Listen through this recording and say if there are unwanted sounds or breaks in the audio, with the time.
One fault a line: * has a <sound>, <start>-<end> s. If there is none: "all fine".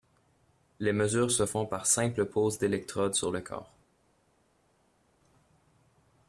all fine